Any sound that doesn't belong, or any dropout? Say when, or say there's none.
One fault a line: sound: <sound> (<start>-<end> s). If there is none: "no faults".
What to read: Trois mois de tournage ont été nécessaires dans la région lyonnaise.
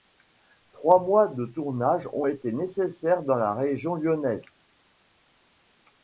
no faults